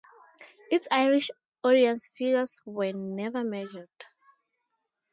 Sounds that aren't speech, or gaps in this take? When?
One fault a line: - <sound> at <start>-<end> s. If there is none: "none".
none